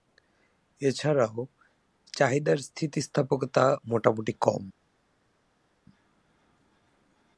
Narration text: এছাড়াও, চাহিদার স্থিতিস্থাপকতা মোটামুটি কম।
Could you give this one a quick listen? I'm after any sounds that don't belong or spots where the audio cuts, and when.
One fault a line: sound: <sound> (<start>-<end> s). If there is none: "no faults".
no faults